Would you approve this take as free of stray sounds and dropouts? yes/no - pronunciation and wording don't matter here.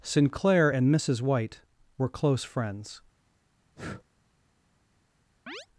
no